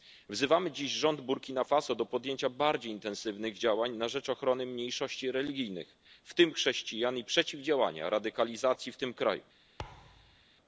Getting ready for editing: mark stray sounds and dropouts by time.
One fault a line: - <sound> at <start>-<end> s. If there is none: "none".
- thud at 9.8-10.4 s